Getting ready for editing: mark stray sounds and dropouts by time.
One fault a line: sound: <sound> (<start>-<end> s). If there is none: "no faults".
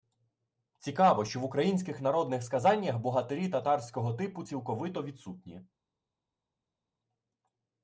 no faults